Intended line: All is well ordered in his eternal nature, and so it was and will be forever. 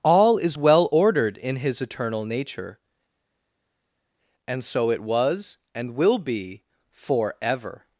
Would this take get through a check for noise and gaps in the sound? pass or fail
pass